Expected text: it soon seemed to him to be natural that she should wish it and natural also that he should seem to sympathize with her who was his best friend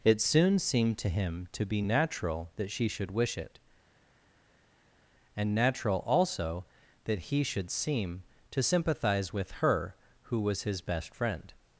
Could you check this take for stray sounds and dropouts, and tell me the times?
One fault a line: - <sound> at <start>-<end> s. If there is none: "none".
none